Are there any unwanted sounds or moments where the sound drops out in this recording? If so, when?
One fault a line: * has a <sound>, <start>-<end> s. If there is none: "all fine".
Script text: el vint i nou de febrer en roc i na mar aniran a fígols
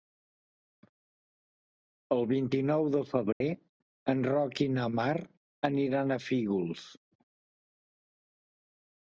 * has a dropout, 3.3-3.4 s